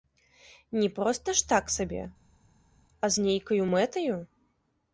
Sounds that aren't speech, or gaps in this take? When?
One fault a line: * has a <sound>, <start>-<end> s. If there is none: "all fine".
all fine